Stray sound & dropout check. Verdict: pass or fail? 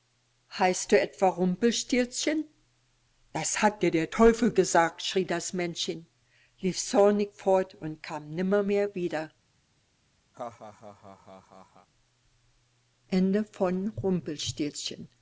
fail